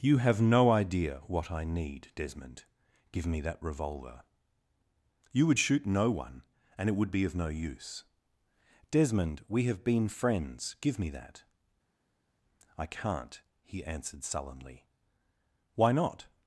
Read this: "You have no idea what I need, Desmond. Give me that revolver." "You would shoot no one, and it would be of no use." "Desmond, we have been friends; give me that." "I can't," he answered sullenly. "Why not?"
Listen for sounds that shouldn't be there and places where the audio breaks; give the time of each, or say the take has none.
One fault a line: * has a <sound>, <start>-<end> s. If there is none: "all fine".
all fine